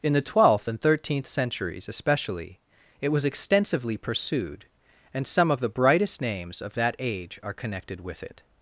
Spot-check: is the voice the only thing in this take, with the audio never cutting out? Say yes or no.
yes